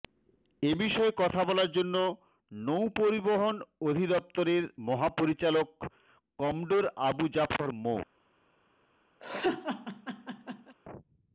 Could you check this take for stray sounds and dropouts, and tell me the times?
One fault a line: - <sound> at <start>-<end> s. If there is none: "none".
- laugh at 9.2-10.8 s